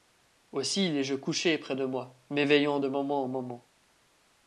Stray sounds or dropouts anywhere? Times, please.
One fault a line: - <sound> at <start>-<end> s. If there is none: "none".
none